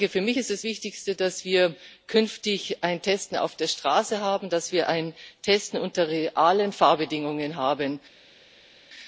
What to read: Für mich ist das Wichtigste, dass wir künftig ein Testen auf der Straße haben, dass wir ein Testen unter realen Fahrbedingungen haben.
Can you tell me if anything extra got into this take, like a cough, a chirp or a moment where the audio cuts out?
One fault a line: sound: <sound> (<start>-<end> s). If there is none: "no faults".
no faults